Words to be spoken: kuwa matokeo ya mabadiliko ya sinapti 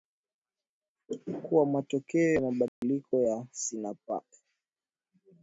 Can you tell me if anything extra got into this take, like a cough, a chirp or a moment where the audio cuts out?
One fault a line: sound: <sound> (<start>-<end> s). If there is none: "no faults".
sound: dropout (2.7-2.8 s)